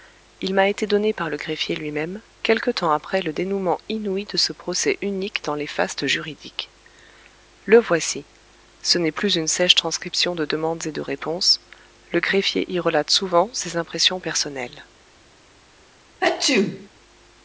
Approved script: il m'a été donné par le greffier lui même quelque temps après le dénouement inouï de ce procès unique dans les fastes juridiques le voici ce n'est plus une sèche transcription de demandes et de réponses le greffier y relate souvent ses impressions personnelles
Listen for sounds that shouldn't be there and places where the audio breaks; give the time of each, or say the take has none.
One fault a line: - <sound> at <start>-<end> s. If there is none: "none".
- sneeze at 16.2-16.9 s